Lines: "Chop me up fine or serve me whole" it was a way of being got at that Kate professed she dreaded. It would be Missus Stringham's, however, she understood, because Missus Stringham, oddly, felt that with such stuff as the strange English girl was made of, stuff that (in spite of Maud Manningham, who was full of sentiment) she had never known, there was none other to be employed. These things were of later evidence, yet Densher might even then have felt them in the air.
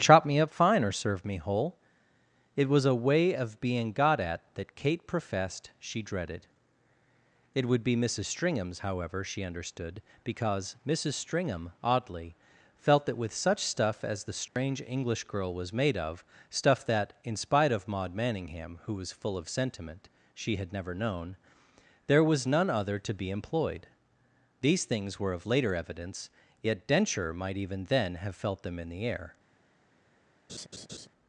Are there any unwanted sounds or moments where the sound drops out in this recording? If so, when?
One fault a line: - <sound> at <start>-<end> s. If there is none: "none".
- dropout at 14.5-14.6 s
- laugh at 30.5-31.1 s